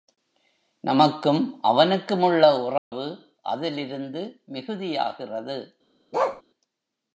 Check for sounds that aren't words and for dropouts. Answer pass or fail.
fail